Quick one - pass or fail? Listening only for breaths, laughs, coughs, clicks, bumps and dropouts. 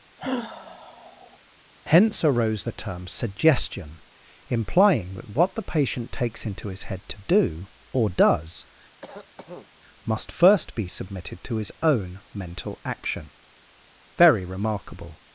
fail